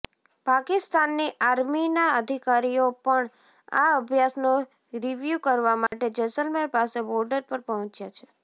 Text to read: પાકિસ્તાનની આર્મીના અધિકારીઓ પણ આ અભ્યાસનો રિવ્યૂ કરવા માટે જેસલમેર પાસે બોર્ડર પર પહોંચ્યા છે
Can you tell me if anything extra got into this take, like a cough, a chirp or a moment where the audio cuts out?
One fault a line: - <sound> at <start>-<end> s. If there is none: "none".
- dropout at 5.9-5.9 s